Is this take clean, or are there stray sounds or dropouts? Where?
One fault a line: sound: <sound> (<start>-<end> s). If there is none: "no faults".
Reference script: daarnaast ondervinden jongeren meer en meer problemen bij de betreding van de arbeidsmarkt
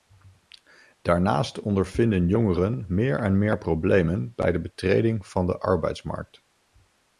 no faults